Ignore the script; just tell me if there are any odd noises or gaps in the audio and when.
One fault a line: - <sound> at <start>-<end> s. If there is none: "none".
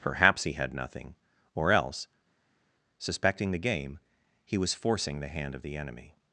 none